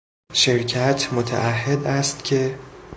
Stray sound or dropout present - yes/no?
no